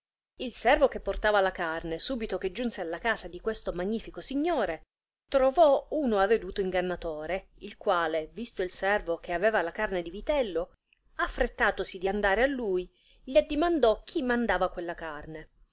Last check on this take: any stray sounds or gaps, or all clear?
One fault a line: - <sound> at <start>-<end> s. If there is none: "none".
none